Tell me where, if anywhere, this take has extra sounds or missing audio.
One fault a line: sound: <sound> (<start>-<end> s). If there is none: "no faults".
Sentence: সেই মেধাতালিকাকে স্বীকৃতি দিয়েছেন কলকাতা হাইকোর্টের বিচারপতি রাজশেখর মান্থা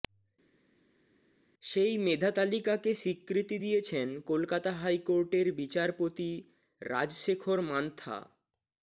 no faults